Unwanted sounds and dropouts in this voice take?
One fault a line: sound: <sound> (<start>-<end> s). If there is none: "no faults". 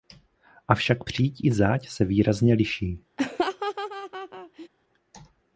sound: laugh (3.2-4.7 s)